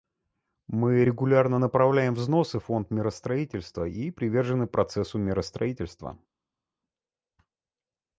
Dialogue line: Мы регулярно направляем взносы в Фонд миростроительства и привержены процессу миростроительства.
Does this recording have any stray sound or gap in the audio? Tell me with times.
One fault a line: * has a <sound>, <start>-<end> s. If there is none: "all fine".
all fine